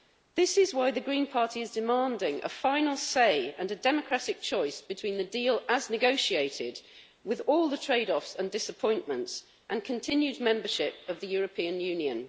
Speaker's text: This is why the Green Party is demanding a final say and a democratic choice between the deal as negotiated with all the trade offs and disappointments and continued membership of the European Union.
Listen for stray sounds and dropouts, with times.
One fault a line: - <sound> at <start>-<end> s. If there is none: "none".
none